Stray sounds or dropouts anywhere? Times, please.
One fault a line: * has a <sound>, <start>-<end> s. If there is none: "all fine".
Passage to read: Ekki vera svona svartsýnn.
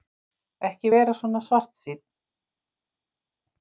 all fine